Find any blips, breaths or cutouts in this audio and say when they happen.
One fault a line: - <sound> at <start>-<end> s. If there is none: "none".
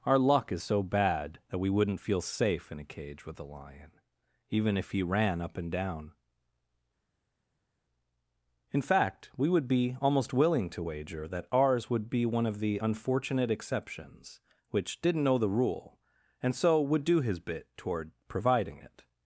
none